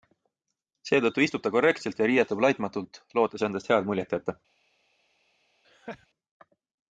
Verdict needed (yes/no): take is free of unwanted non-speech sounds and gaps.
no